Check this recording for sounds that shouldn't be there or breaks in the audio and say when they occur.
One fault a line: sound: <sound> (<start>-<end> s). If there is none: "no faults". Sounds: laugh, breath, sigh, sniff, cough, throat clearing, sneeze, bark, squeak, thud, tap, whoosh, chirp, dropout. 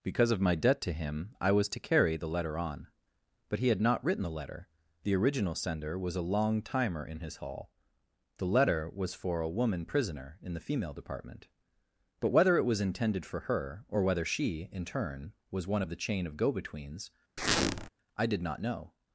sound: squeak (17.4-17.9 s)